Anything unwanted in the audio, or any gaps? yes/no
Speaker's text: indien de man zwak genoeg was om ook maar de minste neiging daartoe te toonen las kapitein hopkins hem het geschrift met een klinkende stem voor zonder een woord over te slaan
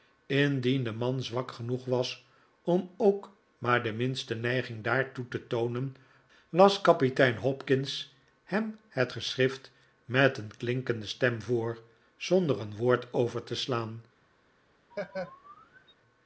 yes